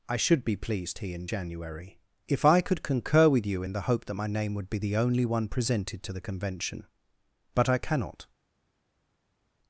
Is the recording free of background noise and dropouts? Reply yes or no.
yes